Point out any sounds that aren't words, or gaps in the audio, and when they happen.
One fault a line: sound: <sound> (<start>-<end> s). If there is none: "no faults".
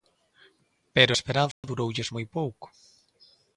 sound: dropout (1.5-1.6 s)